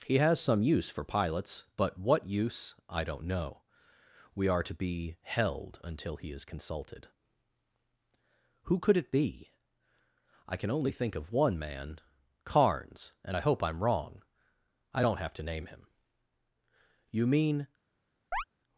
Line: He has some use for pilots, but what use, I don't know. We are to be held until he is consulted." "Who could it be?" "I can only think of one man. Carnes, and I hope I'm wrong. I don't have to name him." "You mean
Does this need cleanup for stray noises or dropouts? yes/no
yes